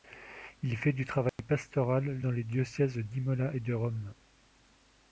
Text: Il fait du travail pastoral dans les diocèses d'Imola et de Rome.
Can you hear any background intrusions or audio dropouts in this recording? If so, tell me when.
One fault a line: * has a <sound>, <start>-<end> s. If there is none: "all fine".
* has a dropout, 1.3-1.4 s